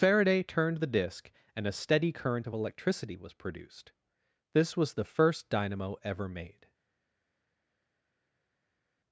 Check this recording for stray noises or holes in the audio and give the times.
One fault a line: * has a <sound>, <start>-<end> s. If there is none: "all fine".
all fine